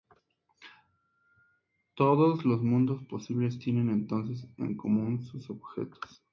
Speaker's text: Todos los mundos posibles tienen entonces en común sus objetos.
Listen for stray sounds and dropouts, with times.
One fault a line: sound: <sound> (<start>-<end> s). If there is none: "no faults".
no faults